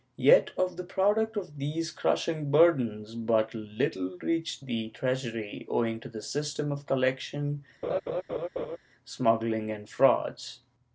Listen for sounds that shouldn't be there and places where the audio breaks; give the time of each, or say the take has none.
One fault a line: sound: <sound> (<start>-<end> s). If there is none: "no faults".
sound: laugh (7.8-8.8 s)